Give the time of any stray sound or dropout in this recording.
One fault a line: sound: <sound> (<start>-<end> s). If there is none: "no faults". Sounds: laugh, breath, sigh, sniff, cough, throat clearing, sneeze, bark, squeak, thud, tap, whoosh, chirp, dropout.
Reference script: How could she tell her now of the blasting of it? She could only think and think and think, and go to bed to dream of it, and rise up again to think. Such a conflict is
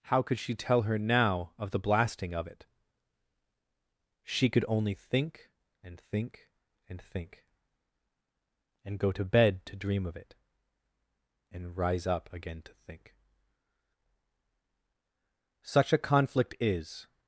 no faults